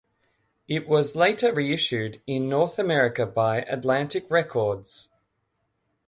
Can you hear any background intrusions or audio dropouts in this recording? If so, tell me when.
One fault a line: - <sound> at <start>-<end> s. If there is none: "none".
none